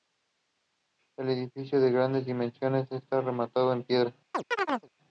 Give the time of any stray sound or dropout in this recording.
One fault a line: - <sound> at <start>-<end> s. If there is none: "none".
- chirp at 4.3-4.9 s